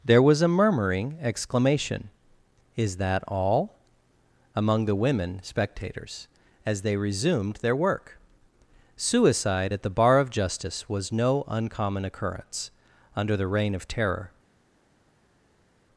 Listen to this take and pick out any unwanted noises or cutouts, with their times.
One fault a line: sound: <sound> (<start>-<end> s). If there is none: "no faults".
no faults